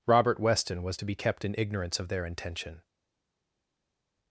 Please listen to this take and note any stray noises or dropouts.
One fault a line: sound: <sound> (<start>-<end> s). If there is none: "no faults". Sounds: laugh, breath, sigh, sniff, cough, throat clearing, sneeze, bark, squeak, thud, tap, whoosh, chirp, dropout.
no faults